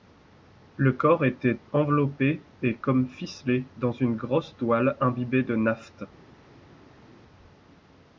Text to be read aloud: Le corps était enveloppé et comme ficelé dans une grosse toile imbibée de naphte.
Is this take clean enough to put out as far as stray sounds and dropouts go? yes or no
yes